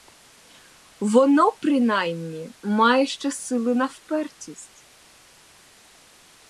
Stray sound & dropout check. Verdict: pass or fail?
pass